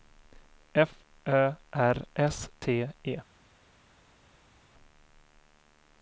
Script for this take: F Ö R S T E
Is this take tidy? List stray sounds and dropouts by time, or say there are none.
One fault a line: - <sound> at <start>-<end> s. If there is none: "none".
none